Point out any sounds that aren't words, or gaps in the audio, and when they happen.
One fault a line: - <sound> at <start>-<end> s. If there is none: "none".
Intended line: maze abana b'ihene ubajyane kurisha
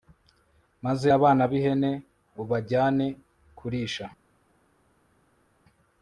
none